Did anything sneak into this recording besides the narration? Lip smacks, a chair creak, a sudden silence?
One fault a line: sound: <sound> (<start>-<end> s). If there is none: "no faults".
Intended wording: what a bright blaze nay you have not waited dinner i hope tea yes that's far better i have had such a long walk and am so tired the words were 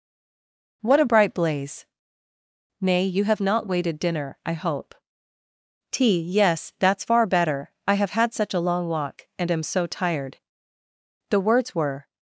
no faults